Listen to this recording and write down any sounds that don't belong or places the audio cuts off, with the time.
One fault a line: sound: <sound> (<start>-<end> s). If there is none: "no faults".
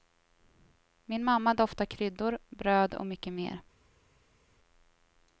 no faults